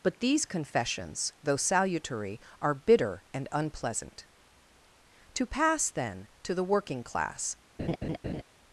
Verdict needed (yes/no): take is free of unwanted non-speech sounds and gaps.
no